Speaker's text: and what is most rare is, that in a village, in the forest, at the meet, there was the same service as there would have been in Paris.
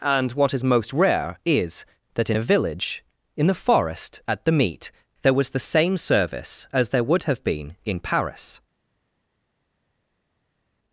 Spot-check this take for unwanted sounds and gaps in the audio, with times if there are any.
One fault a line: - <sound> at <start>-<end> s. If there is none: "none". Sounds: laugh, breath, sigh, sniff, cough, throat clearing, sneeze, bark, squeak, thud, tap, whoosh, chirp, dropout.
none